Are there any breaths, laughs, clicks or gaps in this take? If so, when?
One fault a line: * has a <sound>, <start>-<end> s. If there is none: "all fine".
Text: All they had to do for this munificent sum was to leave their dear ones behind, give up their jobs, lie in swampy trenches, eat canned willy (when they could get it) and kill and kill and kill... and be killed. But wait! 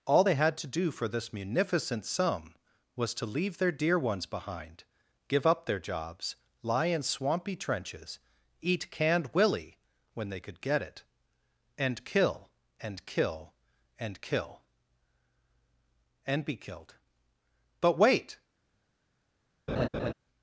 * has a laugh, 19.7-20.1 s